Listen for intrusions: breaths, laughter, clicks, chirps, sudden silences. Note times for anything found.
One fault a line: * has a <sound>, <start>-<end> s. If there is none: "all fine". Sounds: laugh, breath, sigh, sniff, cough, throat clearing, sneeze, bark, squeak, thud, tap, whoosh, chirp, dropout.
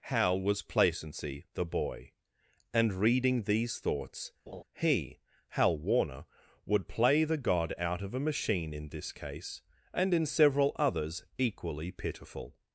* has a laugh, 4.5-4.6 s